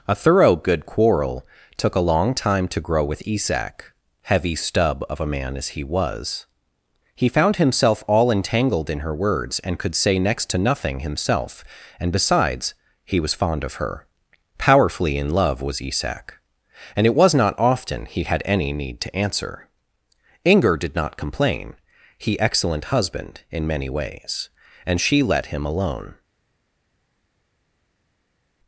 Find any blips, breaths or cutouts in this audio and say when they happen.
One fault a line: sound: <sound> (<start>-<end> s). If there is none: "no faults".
no faults